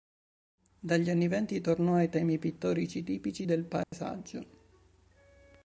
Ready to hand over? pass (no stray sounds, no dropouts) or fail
fail